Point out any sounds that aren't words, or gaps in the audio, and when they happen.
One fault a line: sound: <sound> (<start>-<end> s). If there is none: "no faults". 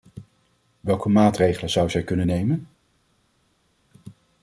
no faults